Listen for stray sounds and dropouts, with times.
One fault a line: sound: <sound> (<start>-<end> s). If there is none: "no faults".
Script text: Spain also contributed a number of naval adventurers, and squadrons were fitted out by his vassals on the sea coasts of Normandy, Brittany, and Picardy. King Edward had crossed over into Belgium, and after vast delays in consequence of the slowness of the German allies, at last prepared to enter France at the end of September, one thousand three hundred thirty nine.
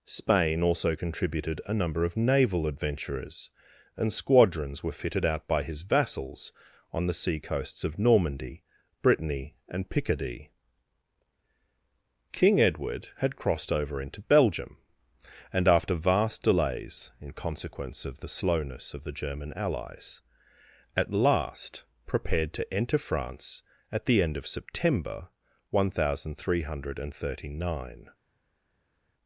no faults